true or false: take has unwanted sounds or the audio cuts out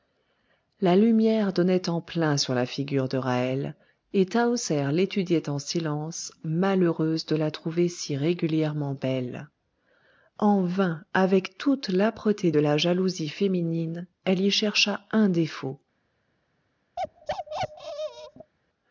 true